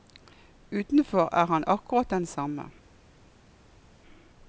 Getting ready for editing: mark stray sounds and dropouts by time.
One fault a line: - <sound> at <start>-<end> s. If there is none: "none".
none